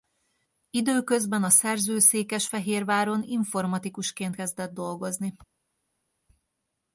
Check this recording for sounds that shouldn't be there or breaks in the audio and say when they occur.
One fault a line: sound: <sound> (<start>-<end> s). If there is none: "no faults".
no faults